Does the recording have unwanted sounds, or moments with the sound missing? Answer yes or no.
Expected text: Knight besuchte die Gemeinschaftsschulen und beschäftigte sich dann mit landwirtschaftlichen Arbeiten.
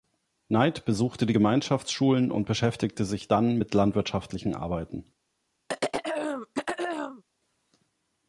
yes